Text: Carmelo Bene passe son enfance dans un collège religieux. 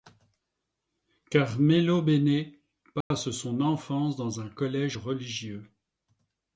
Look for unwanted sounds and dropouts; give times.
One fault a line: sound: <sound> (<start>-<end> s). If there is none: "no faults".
sound: dropout (3.0-3.1 s)